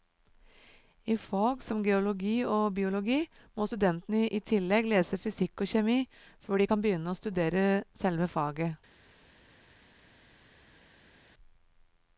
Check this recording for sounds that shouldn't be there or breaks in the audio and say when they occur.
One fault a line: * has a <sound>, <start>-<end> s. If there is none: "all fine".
all fine